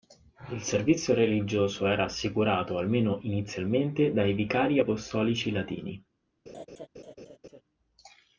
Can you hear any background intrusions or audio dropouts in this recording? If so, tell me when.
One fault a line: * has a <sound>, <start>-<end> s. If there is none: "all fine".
* has a laugh, 6.5-7.6 s